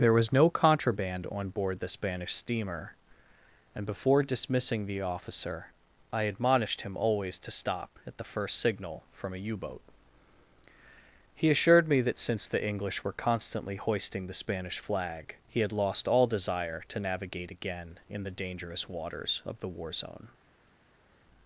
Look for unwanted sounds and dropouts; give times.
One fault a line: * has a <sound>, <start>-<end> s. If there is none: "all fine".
all fine